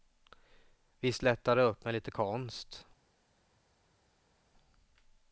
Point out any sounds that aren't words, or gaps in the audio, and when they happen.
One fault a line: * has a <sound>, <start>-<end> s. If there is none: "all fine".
all fine